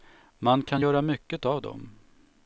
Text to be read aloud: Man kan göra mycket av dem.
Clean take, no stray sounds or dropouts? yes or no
yes